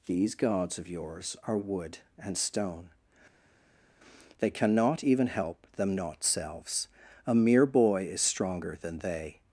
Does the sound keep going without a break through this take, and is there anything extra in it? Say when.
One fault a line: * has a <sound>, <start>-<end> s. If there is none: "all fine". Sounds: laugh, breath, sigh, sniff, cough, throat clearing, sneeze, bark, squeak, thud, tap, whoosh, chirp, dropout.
all fine